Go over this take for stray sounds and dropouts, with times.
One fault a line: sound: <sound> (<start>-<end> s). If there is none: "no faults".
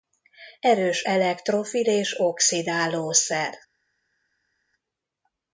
no faults